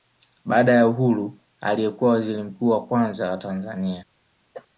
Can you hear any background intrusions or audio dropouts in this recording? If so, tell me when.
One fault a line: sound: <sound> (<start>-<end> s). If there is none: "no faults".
sound: cough (4.5-4.7 s)